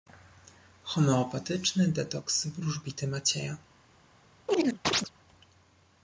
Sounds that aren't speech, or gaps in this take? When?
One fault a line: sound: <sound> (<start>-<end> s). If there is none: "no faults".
sound: chirp (4.5-5.1 s)